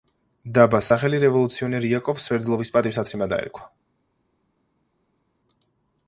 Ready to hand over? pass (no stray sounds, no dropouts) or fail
pass